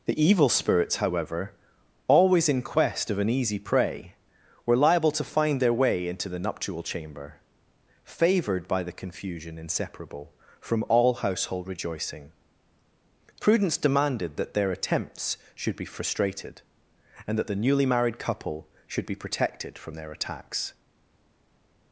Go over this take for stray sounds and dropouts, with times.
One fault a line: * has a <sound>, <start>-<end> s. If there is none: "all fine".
all fine